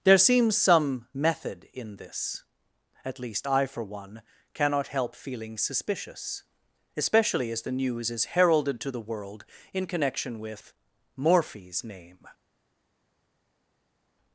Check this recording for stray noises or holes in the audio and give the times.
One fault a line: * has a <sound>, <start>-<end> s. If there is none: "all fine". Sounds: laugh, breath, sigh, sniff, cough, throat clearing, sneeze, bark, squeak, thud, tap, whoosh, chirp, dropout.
all fine